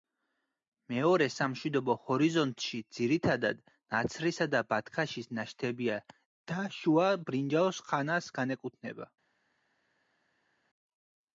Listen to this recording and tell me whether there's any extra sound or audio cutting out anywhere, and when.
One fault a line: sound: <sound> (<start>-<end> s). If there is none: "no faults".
no faults